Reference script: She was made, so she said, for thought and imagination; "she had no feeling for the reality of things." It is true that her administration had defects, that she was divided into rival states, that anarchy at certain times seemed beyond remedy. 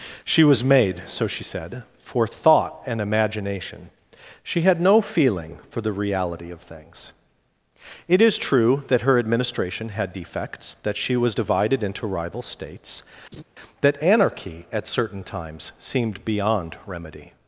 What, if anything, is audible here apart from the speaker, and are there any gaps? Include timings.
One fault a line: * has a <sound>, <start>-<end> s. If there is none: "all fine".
* has a laugh, 13.3-13.4 s